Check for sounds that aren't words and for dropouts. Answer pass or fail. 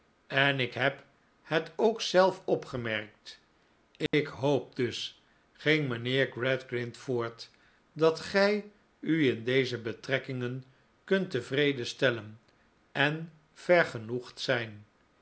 fail